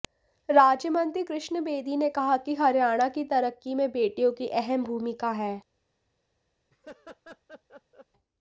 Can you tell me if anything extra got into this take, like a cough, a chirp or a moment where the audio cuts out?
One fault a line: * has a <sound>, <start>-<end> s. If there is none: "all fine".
* has a laugh, 6.7-8.1 s